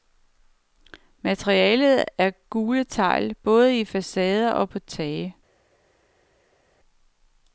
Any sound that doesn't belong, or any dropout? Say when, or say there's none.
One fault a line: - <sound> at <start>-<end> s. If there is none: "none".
none